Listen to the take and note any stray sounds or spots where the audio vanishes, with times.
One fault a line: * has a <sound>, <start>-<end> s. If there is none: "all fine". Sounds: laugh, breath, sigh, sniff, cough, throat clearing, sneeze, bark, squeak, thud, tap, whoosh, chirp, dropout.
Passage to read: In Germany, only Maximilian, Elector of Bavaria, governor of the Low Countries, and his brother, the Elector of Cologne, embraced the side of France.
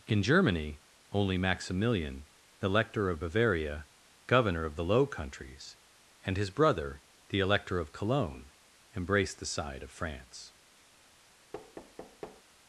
* has a thud, 11.5-12.4 s